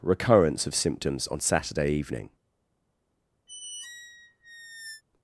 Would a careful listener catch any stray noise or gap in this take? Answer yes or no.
yes